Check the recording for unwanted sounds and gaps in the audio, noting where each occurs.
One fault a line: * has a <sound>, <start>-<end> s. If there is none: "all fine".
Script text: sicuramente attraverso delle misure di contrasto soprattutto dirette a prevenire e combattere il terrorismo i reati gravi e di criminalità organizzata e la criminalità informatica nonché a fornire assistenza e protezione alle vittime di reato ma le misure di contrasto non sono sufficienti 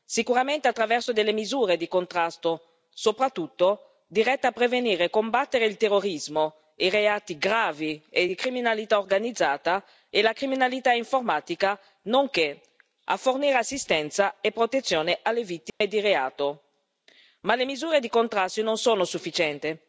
* has a dropout, 15.7-15.8 s